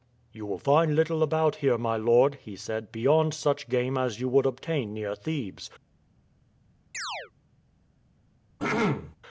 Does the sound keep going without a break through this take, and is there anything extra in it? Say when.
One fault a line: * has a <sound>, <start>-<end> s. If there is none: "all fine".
* has a chirp, 6.9-7.3 s
* has a throat clearing, 8.6-9.2 s